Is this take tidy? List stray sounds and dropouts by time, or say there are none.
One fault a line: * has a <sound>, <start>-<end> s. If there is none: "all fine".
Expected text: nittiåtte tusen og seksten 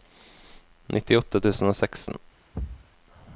* has a thud, 2.5-2.9 s